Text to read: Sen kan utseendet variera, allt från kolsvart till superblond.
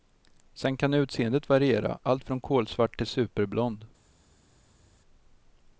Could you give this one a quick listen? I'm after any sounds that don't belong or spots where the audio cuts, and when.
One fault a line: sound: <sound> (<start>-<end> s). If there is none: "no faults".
no faults